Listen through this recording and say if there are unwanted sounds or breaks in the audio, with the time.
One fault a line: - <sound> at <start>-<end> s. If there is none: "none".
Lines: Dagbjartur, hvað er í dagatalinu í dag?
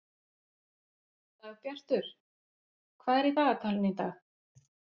none